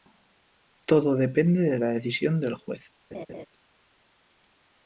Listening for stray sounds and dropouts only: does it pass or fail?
fail